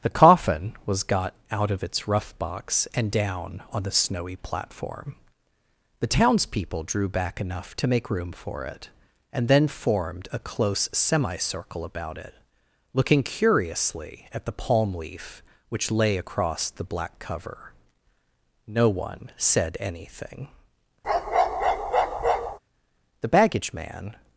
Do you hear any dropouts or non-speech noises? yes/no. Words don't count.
yes